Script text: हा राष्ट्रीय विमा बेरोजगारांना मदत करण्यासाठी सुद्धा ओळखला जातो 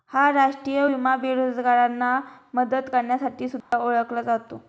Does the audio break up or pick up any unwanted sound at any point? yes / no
yes